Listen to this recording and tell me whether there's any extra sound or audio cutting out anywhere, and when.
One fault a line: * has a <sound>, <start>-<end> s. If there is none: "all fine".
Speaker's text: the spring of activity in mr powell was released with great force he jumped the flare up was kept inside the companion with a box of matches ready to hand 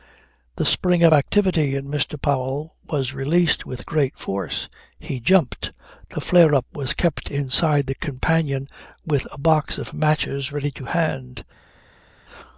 all fine